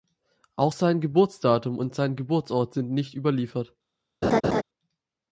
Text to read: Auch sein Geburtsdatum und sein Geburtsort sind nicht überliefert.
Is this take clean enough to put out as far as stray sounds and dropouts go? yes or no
no